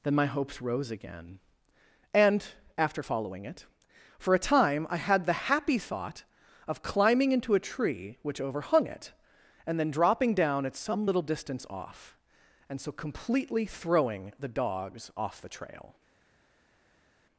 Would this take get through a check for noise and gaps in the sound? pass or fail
pass